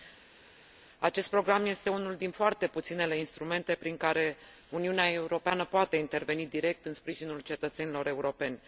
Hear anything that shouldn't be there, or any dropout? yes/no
no